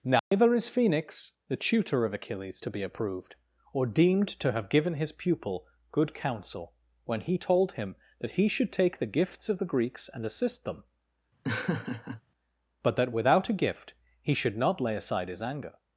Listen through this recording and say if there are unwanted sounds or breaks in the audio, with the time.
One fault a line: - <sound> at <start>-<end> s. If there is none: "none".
- dropout at 0.2-0.3 s
- laugh at 11.4-12.2 s